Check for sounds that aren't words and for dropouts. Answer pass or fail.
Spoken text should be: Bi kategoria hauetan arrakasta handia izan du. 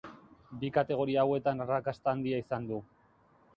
pass